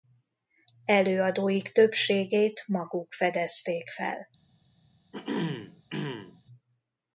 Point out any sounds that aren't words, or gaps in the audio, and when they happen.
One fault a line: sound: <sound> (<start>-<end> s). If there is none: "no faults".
sound: throat clearing (5.1-6.4 s)